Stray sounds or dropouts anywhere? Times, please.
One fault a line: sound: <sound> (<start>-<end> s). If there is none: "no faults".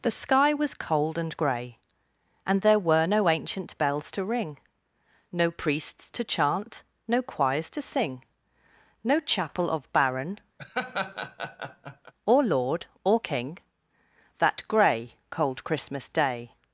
sound: laugh (10.6-12.1 s)